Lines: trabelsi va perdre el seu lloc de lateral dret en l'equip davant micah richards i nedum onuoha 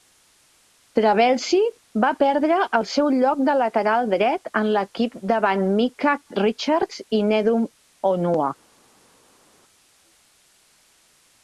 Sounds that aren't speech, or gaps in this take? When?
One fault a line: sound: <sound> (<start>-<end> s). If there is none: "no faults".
no faults